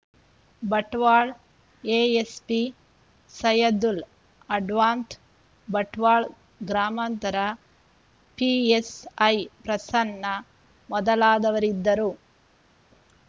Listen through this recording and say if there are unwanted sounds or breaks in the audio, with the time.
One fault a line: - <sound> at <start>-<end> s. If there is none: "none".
none